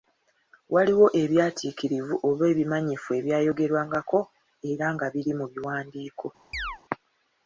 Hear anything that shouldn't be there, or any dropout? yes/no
yes